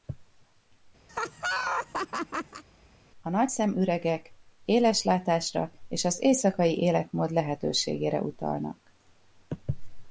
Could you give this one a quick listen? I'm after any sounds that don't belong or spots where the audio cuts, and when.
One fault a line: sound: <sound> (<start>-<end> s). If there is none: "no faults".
sound: laugh (1.1-2.6 s)